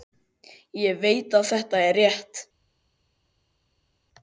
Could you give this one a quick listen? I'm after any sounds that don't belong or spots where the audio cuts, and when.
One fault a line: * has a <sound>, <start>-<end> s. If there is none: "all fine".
all fine